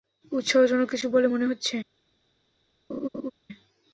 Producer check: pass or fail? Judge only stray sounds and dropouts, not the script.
fail